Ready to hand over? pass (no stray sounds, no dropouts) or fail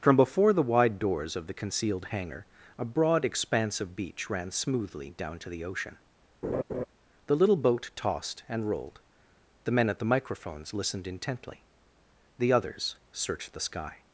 fail